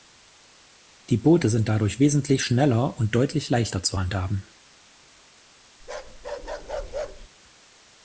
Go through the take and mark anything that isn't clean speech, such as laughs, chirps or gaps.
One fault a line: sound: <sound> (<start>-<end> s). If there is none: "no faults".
sound: bark (5.8-7.3 s)